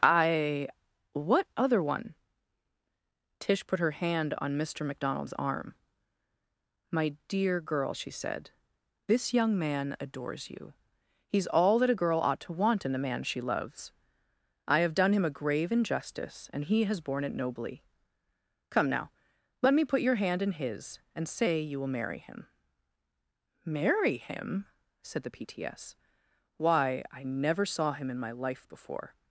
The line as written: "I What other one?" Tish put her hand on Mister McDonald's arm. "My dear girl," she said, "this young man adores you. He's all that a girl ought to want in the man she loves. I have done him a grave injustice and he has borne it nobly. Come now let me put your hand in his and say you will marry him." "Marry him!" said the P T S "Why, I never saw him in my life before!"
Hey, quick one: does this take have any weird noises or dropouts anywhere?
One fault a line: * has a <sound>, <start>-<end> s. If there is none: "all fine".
all fine